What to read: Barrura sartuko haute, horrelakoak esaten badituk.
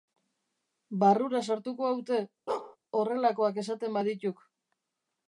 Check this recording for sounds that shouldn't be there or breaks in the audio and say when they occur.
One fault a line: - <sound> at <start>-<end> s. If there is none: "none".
- bark at 2.5-2.8 s